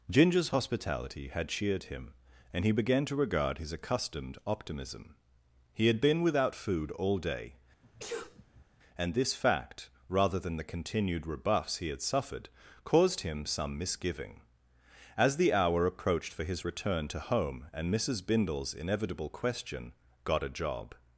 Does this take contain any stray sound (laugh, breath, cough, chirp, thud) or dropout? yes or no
yes